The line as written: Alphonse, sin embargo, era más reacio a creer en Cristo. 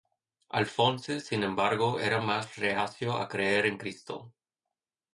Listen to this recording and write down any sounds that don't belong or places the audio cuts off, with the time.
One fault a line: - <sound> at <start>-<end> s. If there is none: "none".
none